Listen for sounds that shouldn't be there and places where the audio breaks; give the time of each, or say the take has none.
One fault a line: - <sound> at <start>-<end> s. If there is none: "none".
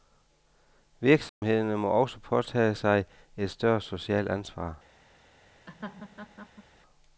- dropout at 1.3-1.4 s
- laugh at 5.7-6.6 s